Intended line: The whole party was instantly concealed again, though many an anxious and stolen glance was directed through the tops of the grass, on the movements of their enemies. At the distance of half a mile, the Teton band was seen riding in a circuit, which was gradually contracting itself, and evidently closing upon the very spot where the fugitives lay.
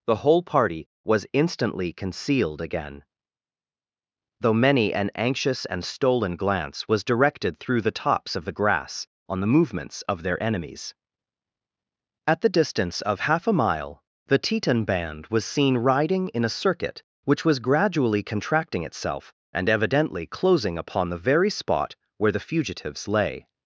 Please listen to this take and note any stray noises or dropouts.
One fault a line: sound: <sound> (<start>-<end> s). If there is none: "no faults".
no faults